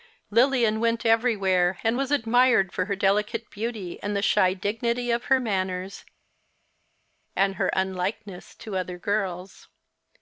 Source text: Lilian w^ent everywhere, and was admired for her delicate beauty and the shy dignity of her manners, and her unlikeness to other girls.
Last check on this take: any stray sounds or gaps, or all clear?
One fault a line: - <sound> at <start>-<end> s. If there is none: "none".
none